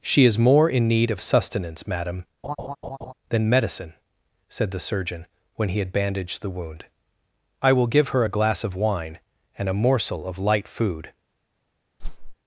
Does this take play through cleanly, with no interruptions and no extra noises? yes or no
no